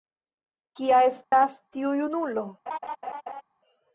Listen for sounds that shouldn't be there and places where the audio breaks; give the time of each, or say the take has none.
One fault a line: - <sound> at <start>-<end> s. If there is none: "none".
- dropout at 1.2-1.3 s
- laugh at 2.7-3.4 s